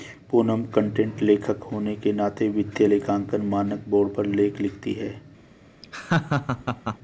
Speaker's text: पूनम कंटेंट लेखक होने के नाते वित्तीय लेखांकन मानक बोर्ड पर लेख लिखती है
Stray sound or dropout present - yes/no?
yes